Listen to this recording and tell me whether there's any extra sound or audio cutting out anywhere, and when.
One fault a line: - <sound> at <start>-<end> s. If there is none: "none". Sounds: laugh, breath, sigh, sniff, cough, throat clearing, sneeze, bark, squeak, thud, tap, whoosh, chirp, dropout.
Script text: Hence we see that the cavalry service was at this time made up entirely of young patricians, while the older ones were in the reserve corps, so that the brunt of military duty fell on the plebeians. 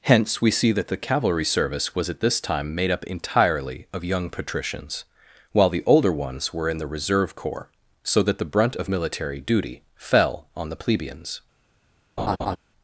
- laugh at 12.2-12.6 s